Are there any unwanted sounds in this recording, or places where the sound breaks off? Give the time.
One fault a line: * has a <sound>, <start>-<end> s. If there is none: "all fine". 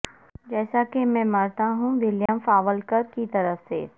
* has a dropout, 2.3-2.3 s